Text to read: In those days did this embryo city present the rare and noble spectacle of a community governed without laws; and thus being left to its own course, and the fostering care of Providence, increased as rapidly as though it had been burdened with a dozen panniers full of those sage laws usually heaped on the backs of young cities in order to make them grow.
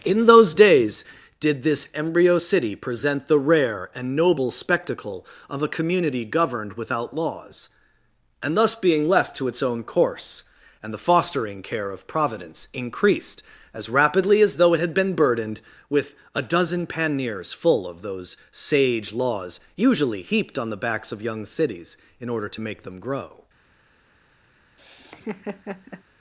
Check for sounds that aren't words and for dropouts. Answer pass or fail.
fail